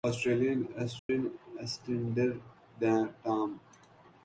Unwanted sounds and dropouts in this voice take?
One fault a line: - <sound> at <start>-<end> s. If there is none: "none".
- dropout at 1.0-1.1 s